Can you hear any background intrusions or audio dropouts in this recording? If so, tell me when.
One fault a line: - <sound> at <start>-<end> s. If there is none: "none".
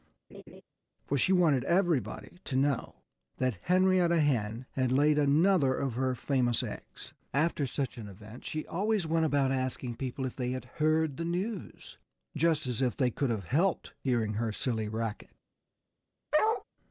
- laugh at 0.3-0.6 s
- bark at 16.3-16.6 s